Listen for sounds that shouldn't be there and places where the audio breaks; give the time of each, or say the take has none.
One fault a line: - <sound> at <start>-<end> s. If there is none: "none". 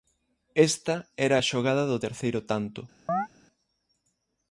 - chirp at 3.1-3.3 s